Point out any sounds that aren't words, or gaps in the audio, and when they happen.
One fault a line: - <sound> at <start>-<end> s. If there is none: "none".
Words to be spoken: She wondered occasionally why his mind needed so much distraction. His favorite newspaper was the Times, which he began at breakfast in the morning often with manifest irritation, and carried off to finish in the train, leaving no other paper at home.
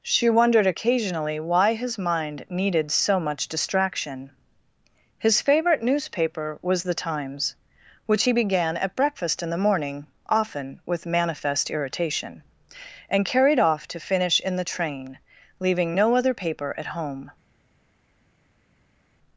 none